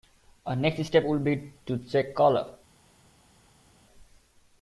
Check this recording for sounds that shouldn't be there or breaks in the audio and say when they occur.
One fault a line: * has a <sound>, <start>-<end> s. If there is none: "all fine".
all fine